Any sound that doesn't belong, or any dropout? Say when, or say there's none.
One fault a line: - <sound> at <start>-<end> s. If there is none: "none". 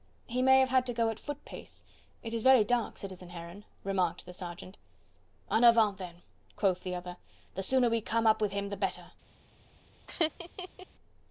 - laugh at 10.1-10.9 s